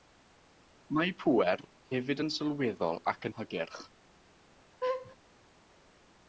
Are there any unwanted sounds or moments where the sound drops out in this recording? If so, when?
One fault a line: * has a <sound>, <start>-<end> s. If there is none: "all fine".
* has a laugh, 4.8-5.2 s